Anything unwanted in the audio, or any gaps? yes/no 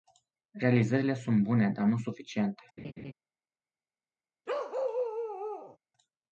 yes